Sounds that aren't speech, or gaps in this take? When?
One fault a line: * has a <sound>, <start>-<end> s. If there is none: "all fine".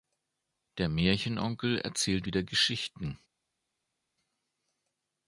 all fine